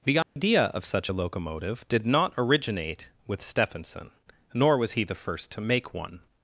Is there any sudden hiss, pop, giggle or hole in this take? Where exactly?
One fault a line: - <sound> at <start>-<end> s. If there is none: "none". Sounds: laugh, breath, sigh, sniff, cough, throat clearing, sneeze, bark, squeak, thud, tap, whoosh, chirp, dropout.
- dropout at 0.2-0.4 s